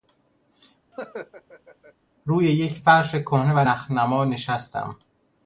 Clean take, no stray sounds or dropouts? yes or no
no